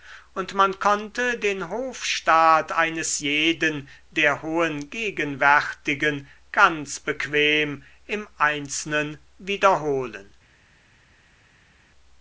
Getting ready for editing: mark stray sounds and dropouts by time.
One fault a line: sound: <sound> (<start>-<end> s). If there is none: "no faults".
no faults